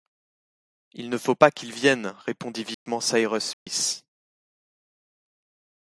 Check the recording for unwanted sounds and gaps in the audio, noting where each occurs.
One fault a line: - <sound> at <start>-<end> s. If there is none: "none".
- dropout at 2.7-2.9 s
- dropout at 3.5-3.7 s